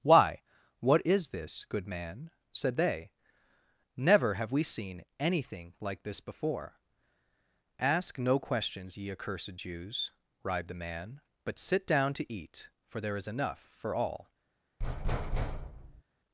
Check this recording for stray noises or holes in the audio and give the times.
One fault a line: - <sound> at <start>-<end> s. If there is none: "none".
- thud at 14.8-16.0 s